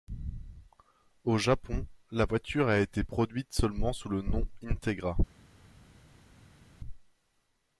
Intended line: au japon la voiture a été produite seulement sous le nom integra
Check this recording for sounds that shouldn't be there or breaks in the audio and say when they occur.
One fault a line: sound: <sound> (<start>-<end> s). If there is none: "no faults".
no faults